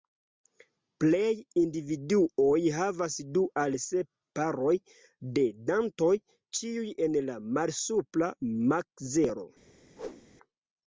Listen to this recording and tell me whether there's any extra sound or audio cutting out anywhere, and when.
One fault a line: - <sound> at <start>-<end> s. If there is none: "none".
- whoosh at 9.9-10.3 s